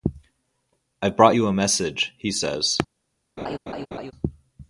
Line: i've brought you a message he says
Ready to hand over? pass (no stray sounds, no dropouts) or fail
fail